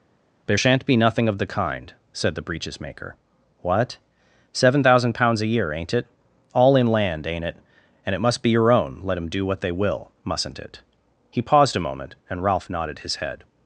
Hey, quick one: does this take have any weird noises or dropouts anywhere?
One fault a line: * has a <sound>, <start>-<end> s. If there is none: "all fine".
all fine